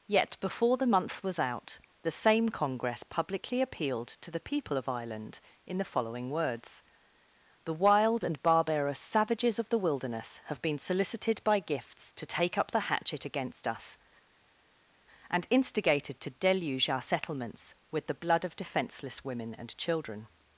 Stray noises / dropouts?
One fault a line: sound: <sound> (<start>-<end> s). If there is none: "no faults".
no faults